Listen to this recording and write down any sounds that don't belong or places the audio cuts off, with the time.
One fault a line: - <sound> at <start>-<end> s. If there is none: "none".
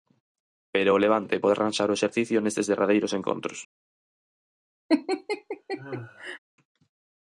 - laugh at 4.9-6.4 s